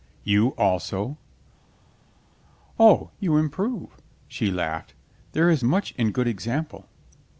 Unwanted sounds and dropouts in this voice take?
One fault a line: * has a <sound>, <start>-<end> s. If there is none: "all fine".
all fine